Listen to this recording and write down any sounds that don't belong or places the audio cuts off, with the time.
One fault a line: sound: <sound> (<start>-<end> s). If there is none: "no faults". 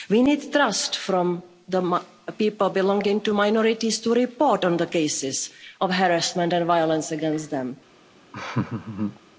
sound: laugh (8.3-9.2 s)